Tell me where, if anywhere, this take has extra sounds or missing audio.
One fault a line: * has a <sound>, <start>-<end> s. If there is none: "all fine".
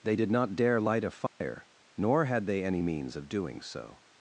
* has a dropout, 1.3-1.4 s